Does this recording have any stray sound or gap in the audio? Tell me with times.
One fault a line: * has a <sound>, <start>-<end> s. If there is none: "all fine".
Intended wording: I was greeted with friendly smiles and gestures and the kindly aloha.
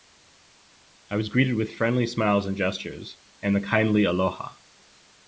all fine